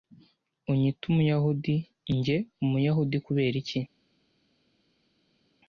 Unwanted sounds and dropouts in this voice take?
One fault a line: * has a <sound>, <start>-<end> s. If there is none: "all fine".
all fine